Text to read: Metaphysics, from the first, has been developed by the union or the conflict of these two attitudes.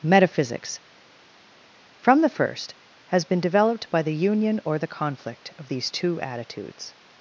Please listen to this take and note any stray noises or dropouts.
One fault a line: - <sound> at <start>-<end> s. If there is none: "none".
none